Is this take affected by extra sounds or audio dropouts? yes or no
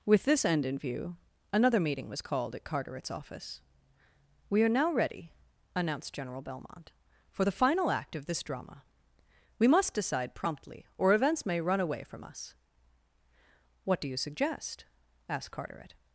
no